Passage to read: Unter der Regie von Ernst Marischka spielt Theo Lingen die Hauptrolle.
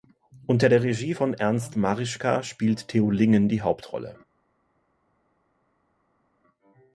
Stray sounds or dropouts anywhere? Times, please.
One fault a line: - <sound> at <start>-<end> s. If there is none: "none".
none